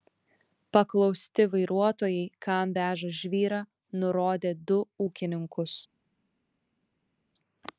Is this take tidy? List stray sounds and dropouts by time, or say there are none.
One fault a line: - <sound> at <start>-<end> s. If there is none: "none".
none